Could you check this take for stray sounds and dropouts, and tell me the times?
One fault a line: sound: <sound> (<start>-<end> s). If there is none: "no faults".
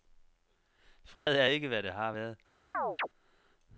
sound: dropout (1.1-1.3 s)
sound: chirp (2.7-3.1 s)